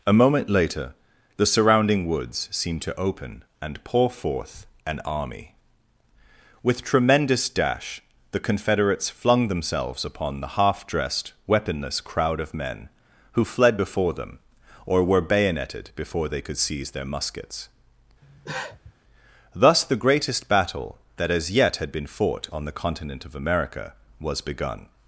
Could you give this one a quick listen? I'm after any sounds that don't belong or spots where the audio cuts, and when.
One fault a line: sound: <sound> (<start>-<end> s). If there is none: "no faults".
sound: cough (18.2-18.9 s)